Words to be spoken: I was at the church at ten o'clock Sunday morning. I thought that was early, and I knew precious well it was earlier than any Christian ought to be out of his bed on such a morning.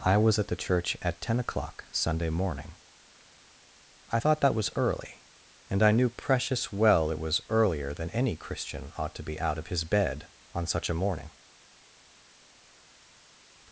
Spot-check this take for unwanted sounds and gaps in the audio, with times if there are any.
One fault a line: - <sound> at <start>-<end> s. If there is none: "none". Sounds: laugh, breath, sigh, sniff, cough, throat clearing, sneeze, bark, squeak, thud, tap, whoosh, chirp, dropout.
none